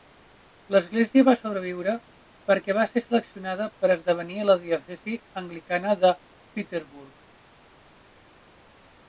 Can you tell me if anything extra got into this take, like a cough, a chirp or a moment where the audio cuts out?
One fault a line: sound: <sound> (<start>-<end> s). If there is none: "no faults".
no faults